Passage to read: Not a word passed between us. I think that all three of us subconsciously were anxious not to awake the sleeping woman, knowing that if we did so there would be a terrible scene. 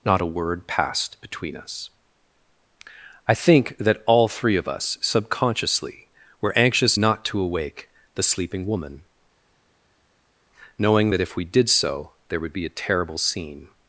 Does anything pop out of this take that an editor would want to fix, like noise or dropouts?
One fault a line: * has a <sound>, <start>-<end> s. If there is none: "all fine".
all fine